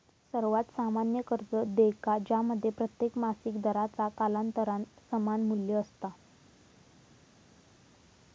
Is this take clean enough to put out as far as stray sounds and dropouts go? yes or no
yes